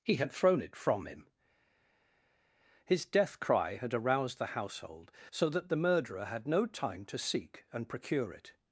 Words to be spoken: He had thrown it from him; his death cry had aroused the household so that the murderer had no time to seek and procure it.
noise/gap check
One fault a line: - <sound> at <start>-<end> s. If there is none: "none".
none